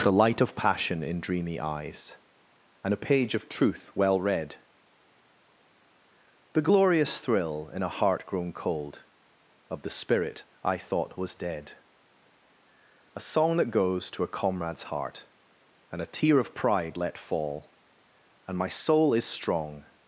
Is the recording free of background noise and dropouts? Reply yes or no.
yes